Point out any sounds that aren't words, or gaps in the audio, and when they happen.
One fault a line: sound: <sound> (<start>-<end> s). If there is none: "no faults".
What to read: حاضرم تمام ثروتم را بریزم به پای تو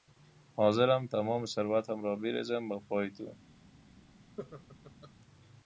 sound: laugh (4.4-5.1 s)